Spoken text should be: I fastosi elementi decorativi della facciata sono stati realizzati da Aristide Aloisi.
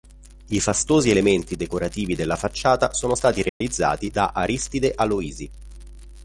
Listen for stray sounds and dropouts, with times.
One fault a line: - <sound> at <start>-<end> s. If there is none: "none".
- dropout at 3.5-3.6 s